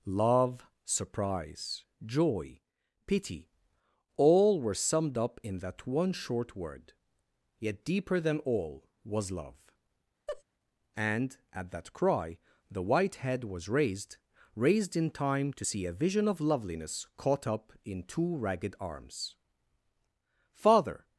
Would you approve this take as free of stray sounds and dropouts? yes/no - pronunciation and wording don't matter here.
no